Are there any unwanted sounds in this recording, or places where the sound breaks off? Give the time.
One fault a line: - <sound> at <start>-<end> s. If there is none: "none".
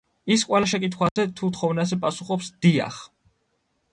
- dropout at 1.1-1.2 s